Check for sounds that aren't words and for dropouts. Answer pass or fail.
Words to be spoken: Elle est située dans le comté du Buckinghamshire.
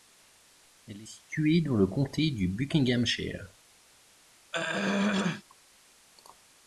fail